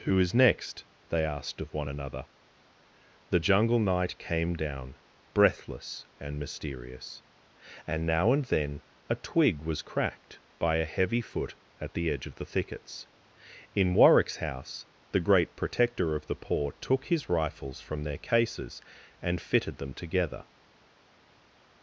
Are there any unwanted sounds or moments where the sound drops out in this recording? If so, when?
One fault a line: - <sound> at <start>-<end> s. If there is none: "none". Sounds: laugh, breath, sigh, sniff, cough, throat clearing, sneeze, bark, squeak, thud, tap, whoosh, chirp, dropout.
none